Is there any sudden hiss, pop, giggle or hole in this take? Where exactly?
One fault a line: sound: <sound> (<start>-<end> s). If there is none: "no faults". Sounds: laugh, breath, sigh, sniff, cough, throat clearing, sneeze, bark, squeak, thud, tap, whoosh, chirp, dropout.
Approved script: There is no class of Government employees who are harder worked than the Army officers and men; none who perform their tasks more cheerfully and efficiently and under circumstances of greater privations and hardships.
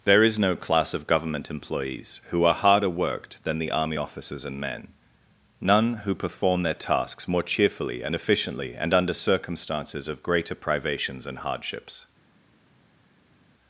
no faults